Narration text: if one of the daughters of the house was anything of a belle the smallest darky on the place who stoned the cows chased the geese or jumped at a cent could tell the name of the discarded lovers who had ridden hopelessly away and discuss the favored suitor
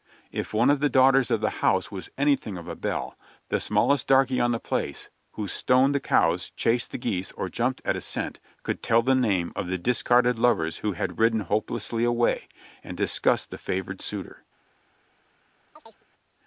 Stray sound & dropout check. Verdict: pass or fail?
fail